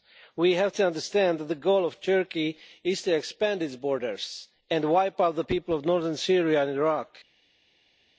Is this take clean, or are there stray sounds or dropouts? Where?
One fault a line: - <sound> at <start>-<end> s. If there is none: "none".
none